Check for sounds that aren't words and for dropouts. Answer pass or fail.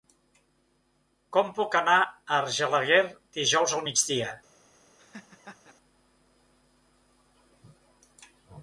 fail